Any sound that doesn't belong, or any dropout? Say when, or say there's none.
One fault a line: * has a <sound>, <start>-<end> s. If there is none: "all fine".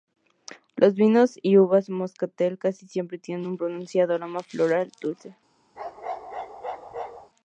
* has a bark, 5.8-7.3 s